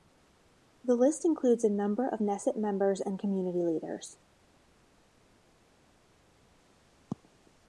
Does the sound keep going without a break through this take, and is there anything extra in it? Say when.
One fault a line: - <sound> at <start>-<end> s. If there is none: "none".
none